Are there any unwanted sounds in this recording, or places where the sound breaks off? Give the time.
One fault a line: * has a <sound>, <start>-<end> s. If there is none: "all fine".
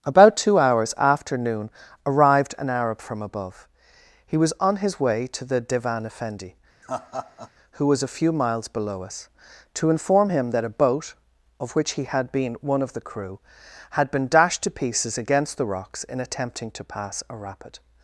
* has a laugh, 6.8-7.5 s